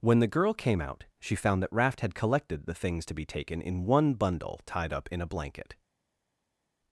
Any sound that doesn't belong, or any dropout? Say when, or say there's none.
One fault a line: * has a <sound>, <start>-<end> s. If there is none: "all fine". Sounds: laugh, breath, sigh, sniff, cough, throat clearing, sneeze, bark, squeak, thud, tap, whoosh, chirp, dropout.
all fine